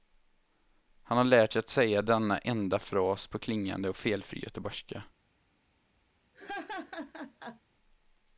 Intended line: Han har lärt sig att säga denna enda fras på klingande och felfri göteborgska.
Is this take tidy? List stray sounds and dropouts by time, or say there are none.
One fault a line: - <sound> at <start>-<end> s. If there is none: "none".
- laugh at 6.3-7.6 s